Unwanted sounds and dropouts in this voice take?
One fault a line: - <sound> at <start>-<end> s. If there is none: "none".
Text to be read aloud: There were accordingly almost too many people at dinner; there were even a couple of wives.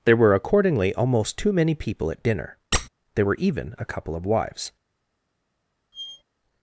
- squeak at 2.7-2.9 s
- squeak at 5.9-6.2 s